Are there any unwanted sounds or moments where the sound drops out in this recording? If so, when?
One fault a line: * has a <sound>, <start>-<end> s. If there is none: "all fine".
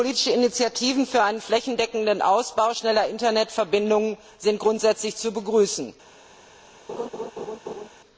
* has a laugh, 6.9-7.9 s